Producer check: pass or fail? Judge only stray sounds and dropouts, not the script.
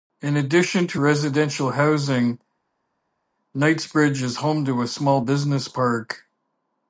pass